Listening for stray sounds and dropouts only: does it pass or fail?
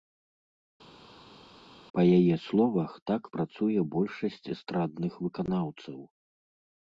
pass